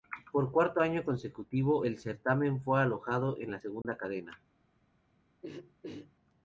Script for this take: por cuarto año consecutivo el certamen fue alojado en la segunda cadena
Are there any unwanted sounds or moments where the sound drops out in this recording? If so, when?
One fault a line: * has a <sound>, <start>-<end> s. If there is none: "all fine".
* has a dropout, 3.8-3.8 s
* has a throat clearing, 5.4-6.1 s